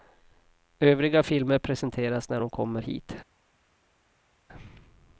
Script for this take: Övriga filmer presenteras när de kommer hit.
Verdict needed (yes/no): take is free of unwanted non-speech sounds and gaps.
yes